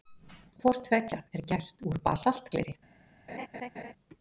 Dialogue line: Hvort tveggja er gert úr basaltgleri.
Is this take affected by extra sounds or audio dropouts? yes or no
yes